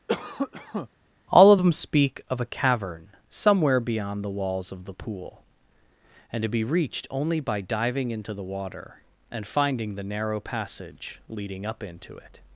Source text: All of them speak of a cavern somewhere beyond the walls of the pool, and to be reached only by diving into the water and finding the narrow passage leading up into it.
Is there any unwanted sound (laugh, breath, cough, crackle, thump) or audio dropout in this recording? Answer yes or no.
yes